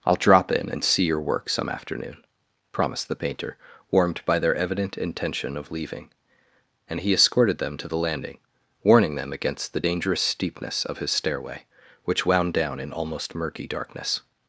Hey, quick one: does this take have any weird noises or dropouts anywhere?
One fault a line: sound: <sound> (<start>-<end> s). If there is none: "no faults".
no faults